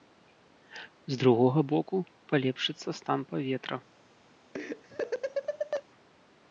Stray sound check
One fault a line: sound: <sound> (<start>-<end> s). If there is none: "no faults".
sound: laugh (4.5-5.8 s)